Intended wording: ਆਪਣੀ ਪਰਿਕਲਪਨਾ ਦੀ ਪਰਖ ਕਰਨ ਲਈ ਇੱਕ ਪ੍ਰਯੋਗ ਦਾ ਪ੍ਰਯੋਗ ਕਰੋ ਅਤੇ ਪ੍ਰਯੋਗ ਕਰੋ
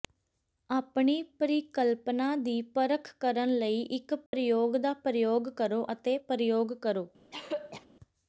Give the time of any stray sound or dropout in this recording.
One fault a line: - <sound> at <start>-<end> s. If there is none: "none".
- dropout at 4.3-4.3 s
- throat clearing at 7.3-7.9 s